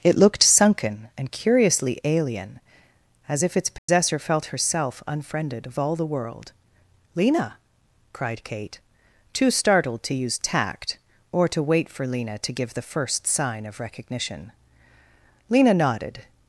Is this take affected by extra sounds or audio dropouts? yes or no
yes